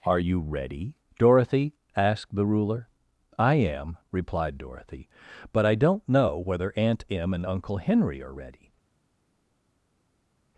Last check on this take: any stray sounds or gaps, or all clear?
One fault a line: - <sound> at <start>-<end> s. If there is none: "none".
none